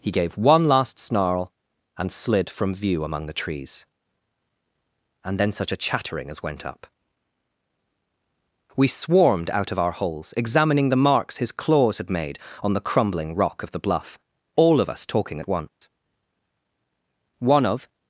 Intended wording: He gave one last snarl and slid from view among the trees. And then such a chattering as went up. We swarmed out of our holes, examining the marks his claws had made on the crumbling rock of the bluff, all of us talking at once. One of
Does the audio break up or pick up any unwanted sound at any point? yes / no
yes